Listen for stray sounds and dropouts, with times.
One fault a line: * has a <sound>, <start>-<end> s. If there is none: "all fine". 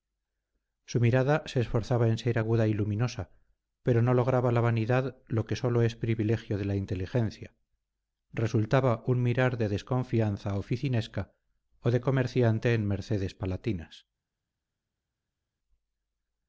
all fine